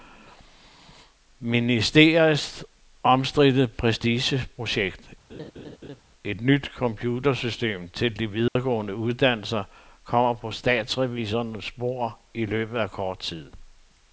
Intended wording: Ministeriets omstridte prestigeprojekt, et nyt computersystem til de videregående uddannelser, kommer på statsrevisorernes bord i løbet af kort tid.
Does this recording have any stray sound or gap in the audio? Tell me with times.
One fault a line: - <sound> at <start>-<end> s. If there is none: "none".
- laugh at 5.3-6.0 s
- dropout at 8.5-8.6 s